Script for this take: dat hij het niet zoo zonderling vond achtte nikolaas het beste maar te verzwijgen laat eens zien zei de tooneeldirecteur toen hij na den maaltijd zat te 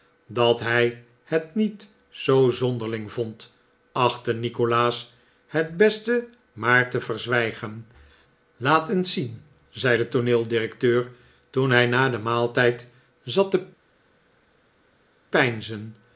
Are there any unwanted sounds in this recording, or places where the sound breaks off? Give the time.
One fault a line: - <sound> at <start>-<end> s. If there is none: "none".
none